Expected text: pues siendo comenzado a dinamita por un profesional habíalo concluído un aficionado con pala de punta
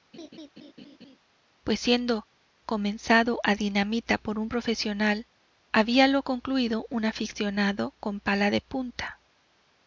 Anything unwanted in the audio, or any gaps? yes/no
yes